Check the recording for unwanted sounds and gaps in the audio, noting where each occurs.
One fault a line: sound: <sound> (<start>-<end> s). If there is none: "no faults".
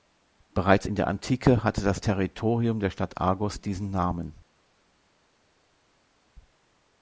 no faults